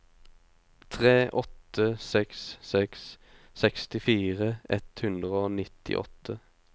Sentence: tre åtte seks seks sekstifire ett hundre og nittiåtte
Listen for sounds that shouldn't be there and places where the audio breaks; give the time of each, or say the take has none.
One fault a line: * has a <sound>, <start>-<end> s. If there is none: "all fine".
all fine